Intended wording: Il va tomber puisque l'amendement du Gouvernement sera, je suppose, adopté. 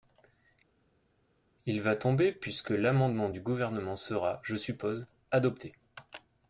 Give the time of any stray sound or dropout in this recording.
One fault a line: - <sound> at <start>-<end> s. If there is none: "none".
none